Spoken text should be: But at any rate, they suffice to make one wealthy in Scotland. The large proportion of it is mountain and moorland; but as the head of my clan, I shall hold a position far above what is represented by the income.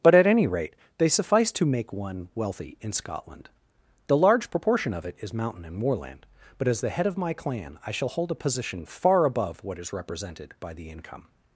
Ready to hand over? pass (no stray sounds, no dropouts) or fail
pass